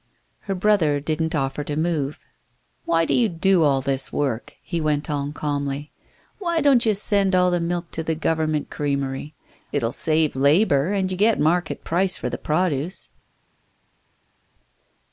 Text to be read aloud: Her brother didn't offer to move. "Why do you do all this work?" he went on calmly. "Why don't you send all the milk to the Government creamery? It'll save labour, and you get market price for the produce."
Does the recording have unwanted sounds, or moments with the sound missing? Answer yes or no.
no